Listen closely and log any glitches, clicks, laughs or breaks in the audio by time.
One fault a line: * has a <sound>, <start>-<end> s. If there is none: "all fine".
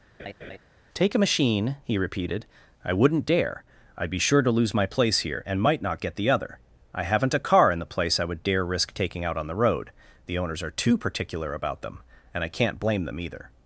* has a laugh, 0.2-0.6 s